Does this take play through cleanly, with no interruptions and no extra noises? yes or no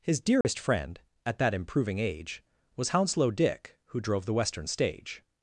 no